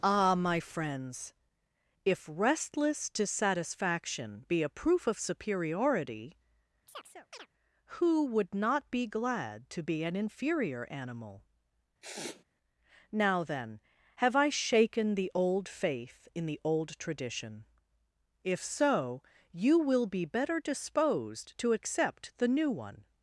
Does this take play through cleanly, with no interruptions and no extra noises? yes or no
no